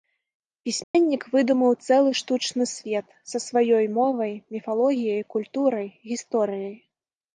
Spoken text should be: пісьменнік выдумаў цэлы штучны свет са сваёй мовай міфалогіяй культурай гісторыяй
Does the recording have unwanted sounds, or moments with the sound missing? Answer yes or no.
yes